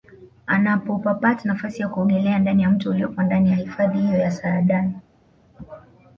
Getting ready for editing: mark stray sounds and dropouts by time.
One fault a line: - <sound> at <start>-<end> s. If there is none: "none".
none